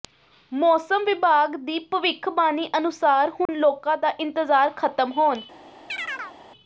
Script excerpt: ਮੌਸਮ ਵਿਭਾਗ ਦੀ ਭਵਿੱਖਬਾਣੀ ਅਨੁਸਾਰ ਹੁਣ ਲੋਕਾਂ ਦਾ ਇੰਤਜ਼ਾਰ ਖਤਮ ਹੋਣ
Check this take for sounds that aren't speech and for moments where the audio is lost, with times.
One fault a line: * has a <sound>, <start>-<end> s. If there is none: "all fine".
* has a dropout, 3.5-3.5 s
* has a chirp, 5.9-6.4 s